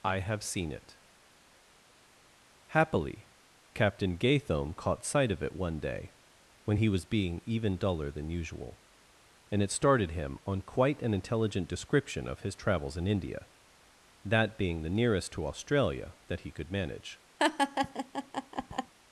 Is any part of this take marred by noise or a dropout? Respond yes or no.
yes